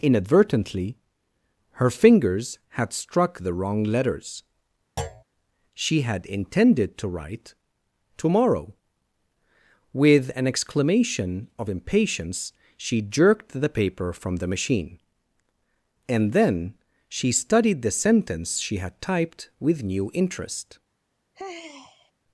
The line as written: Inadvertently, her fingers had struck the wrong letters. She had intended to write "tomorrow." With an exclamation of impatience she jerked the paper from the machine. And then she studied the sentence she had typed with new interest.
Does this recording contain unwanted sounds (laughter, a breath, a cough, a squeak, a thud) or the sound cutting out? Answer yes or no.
yes